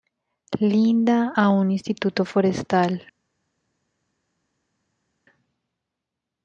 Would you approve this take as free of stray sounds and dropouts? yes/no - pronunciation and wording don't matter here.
yes